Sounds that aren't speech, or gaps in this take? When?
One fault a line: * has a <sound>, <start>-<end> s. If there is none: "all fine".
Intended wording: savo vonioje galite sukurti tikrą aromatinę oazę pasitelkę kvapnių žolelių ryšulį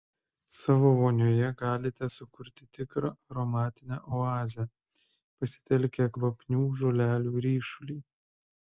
all fine